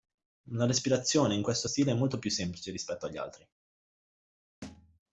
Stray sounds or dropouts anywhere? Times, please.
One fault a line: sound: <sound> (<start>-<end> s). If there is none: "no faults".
sound: thud (4.6-5.0 s)